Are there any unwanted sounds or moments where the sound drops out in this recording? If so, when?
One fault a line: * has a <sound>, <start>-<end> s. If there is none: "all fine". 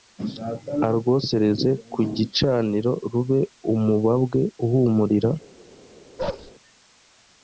* has a bark, 6.2-6.5 s